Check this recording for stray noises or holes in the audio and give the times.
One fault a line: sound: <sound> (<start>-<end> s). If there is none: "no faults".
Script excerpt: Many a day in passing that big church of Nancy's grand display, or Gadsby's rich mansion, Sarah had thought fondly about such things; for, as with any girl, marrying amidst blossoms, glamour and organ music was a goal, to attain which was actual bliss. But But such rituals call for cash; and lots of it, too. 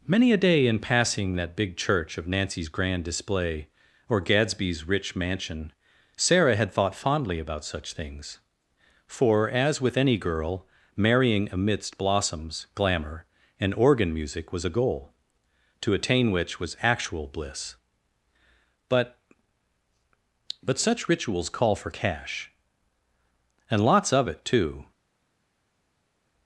no faults